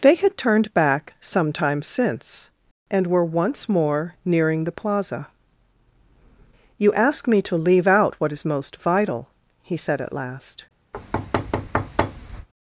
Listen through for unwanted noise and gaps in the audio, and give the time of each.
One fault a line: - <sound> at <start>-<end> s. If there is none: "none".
- thud at 10.9-12.5 s